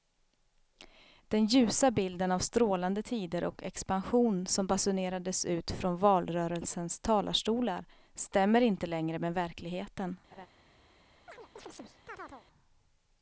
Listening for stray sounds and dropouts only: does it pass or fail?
fail